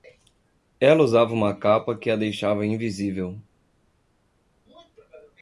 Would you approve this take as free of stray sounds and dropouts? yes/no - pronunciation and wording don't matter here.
yes